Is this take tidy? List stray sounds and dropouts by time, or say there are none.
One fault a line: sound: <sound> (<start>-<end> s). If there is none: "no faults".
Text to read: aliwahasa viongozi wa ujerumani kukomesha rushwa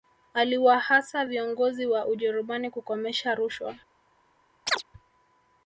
sound: chirp (4.7-4.8 s)